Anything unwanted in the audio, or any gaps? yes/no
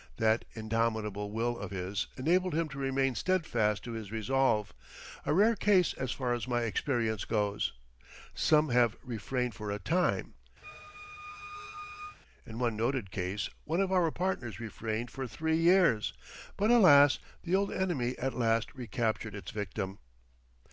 yes